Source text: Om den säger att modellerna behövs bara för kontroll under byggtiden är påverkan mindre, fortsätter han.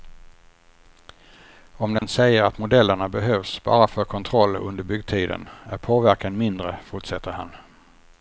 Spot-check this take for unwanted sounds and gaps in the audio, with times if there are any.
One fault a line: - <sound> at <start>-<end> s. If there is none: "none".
- dropout at 2.0-2.0 s